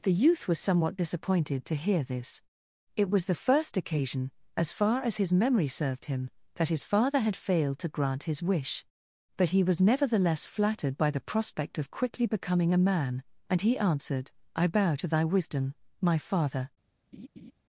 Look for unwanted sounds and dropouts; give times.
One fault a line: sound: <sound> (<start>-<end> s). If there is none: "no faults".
sound: laugh (17.1-17.5 s)